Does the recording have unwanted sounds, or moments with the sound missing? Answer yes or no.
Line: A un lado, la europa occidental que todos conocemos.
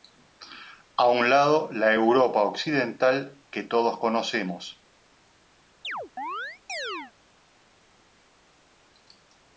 yes